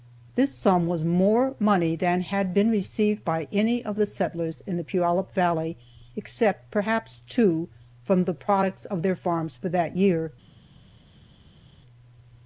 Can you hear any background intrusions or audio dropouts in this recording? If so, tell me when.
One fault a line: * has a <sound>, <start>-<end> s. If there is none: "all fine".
all fine